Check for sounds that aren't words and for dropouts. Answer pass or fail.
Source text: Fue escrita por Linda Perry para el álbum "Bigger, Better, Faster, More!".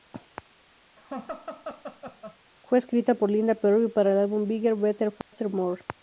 fail